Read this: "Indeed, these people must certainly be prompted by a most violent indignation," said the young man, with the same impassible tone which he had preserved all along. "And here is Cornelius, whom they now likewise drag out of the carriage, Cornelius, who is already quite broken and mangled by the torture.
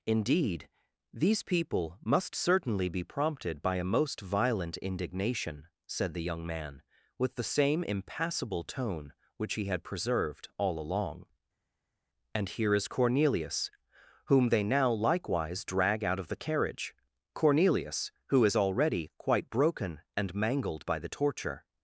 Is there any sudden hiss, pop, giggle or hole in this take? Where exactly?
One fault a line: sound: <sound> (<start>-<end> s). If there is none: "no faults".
no faults